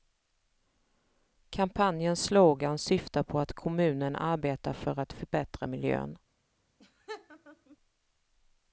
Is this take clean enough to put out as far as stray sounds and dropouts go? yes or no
no